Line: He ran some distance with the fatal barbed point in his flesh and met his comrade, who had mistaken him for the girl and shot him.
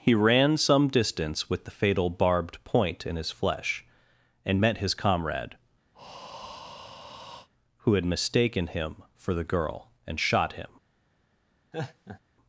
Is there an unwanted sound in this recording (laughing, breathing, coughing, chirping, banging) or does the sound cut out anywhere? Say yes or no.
yes